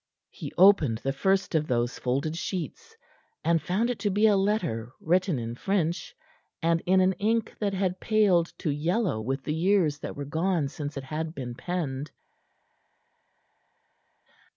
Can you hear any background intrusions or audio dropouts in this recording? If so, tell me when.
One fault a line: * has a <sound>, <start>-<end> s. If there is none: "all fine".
all fine